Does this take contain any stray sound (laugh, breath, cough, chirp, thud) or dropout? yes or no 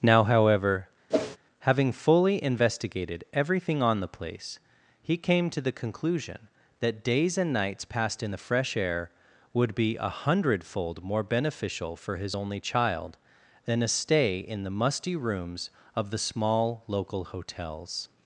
yes